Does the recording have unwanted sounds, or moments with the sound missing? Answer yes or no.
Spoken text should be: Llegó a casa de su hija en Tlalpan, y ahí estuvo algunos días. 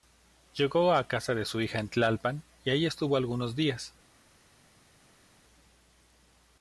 no